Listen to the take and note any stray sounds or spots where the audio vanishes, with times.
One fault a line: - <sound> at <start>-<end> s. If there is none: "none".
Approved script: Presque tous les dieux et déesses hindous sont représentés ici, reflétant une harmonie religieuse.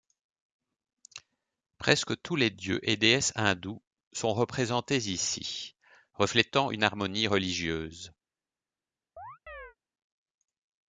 - chirp at 9.2-9.8 s